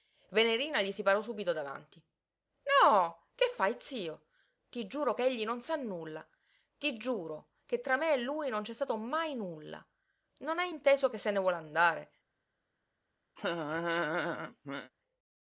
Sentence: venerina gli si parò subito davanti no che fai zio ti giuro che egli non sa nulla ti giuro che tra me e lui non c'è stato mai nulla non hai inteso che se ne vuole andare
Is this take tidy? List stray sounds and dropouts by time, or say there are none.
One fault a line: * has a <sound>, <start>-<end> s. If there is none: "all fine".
* has a laugh, 13.4-14.9 s